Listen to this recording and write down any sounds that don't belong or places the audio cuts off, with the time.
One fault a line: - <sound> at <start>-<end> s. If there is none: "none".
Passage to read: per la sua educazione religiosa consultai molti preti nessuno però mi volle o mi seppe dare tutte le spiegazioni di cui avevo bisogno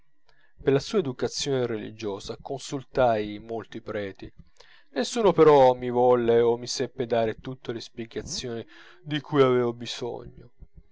none